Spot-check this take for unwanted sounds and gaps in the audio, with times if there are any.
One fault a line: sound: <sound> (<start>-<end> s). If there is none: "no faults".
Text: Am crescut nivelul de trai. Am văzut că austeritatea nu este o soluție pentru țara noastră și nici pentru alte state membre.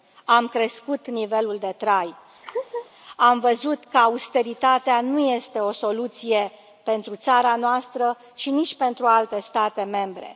sound: laugh (2.4-2.9 s)